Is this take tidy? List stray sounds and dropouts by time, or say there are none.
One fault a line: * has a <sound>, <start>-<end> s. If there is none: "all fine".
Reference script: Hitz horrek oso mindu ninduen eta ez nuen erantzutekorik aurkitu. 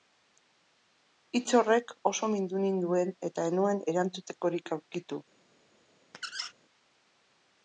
* has a squeak, 6.1-6.5 s